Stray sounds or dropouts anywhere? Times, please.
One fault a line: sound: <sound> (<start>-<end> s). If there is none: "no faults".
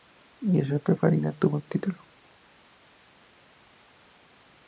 no faults